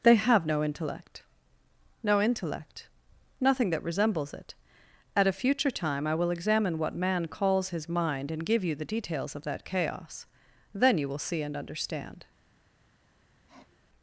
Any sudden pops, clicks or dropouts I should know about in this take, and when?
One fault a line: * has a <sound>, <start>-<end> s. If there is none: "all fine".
* has a sniff, 13.5-13.9 s